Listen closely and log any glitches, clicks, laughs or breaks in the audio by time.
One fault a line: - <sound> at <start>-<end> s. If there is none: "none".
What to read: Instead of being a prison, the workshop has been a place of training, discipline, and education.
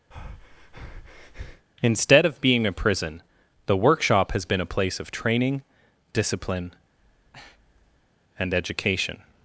- breath at 0.1-1.7 s
- breath at 6.9-8.1 s